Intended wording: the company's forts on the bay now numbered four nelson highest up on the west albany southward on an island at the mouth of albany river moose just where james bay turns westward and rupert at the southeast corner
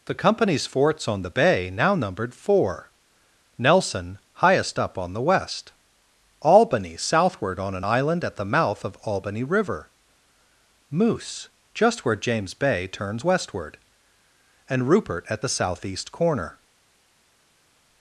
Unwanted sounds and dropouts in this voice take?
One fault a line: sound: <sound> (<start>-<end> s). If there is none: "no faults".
no faults